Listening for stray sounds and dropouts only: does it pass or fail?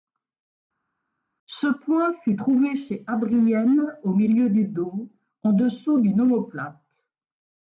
pass